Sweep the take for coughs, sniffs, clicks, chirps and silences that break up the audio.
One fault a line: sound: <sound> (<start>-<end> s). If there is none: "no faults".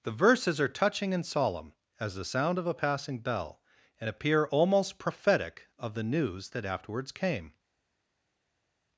no faults